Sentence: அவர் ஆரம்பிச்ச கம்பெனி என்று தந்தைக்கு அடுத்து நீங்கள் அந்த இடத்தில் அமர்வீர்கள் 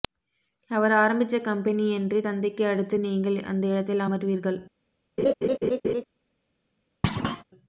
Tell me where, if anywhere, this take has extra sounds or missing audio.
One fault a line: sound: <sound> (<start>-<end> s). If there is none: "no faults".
sound: laugh (5.2-6.0 s)
sound: thud (7.0-7.4 s)